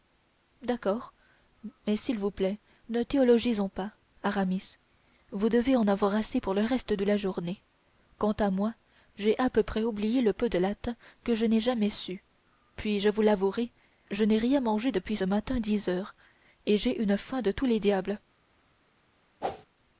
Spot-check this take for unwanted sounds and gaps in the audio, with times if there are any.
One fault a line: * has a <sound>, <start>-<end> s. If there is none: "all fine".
* has a whoosh, 19.4-19.7 s